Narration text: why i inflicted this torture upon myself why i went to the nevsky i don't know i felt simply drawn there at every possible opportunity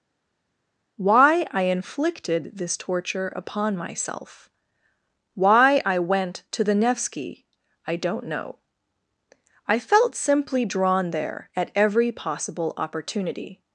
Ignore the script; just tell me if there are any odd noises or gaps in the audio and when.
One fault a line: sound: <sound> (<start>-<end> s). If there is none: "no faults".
no faults